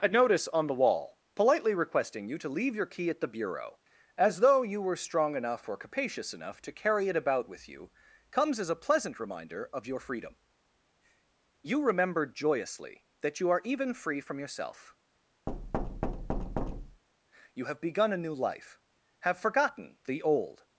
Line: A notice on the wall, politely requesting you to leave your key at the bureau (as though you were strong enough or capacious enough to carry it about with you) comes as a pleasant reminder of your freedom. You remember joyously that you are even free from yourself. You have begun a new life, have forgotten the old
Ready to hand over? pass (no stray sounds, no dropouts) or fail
fail